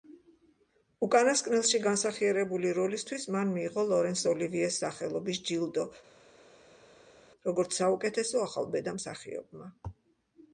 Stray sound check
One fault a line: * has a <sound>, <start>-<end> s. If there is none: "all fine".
all fine